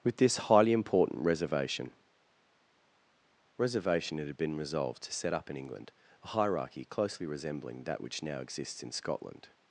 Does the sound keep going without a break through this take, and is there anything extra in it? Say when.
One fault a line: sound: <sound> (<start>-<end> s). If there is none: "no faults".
no faults